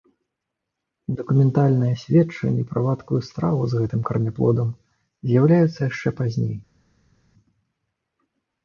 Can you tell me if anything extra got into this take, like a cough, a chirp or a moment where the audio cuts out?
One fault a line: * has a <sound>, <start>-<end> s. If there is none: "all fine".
all fine